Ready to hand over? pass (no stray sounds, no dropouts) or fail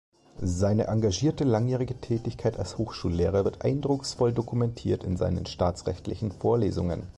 pass